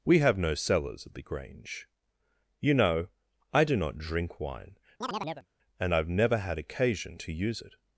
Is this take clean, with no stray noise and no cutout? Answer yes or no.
no